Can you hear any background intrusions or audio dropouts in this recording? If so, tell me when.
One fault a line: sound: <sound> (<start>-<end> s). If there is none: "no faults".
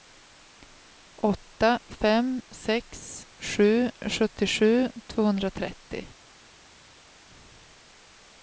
no faults